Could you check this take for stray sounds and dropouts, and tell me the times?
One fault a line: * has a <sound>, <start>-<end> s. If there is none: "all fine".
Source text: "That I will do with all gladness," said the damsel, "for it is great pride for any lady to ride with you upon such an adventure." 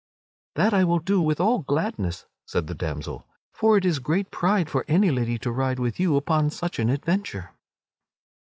all fine